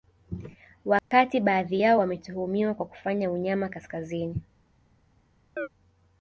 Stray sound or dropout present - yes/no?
yes